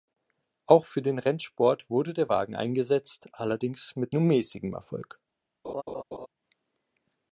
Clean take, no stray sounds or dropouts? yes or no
no